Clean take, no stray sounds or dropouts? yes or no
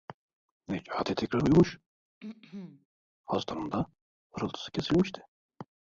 no